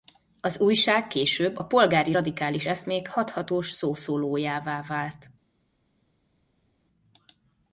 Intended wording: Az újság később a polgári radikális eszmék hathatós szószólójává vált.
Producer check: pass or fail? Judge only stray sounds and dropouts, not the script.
pass